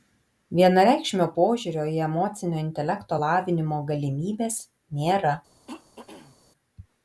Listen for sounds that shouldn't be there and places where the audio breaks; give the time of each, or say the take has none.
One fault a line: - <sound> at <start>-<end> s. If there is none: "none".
- throat clearing at 5.7-6.4 s